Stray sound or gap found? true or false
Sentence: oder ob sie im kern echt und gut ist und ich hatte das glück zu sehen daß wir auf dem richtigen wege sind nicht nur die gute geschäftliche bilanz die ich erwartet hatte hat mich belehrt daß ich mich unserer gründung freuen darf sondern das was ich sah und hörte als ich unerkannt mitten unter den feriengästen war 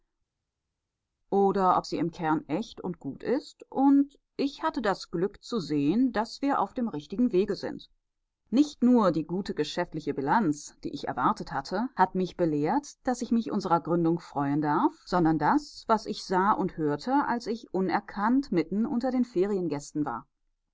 false